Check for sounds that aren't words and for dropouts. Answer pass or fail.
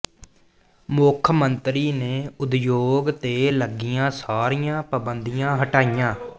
pass